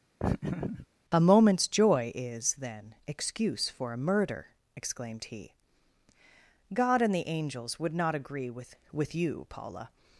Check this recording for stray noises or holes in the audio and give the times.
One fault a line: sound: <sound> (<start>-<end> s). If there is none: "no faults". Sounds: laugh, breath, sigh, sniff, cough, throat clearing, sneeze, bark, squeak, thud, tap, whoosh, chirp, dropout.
sound: laugh (0.2-0.9 s)